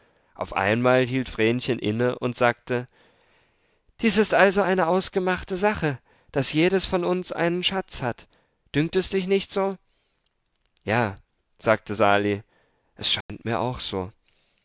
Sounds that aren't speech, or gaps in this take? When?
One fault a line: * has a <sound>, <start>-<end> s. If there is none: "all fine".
* has a dropout, 13.2-13.3 s